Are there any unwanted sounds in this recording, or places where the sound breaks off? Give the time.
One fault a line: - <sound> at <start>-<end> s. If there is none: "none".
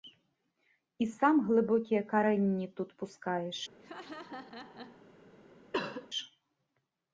- laugh at 3.8-5.1 s
- cough at 5.7-6.1 s